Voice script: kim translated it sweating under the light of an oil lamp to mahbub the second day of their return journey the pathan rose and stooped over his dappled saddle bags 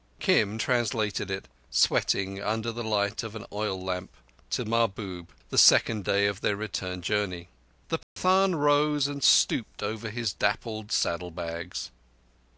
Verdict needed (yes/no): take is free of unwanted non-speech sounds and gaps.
no